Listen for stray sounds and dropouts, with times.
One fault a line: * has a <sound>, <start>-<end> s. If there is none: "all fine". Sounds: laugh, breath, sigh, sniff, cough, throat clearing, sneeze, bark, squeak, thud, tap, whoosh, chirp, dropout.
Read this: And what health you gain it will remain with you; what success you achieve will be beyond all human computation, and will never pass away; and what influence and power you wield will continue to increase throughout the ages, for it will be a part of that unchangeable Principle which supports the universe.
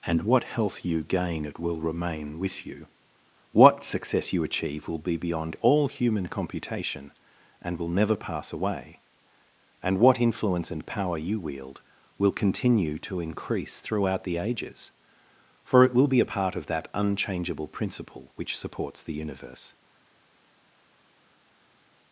all fine